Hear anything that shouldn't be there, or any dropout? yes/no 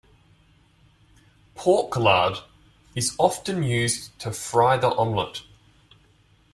no